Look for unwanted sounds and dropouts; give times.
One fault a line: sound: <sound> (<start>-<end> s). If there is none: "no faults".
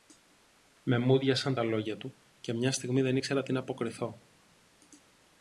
no faults